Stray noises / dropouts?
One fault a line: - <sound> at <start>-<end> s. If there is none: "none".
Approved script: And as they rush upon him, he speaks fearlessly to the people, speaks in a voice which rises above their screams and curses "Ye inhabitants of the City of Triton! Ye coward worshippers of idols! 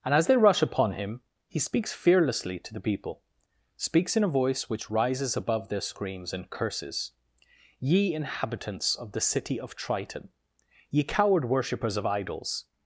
none